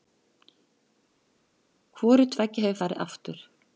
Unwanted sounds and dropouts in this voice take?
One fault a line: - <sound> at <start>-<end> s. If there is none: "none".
none